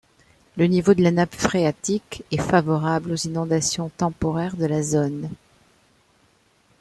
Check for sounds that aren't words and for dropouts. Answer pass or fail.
pass